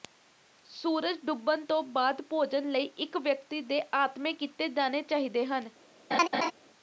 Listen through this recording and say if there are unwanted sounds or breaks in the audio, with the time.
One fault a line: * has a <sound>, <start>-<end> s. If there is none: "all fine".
* has a laugh, 6.1-6.5 s